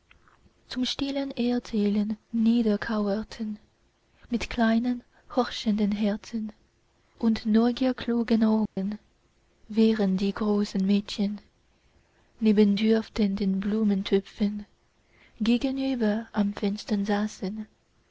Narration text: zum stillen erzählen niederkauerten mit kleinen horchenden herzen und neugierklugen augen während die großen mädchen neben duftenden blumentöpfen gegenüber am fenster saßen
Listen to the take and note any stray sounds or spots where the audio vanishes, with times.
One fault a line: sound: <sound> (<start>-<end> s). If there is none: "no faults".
sound: dropout (8.7-8.8 s)